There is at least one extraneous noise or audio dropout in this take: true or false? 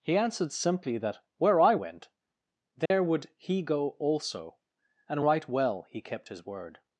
true